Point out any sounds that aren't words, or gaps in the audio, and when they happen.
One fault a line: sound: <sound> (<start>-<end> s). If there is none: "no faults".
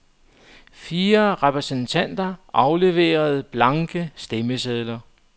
no faults